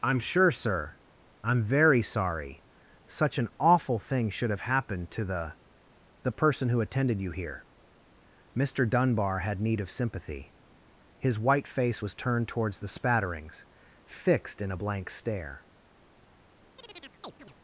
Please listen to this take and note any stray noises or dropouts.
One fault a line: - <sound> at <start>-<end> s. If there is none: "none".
- chirp at 16.8-17.5 s